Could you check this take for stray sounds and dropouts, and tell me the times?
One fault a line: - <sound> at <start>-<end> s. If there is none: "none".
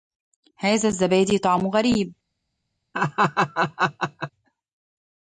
- laugh at 2.9-4.3 s